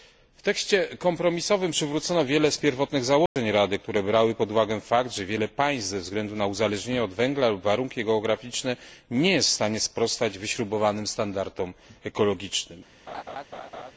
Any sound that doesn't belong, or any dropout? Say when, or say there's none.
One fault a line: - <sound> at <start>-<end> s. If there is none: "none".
- dropout at 3.3-3.4 s
- laugh at 13.1-13.9 s